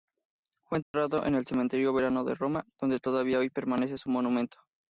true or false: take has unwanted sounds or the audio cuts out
true